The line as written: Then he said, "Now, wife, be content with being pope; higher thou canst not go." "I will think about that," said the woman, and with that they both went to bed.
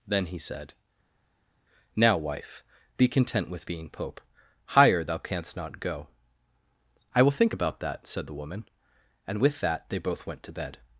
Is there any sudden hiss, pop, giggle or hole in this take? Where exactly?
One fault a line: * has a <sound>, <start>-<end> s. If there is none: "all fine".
all fine